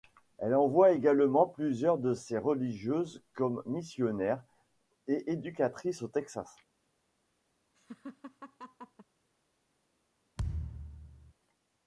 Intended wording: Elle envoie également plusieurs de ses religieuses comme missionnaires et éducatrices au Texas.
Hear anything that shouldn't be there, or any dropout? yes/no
yes